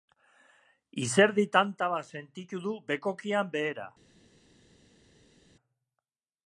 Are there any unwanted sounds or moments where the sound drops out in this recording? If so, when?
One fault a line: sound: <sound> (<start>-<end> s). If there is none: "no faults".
no faults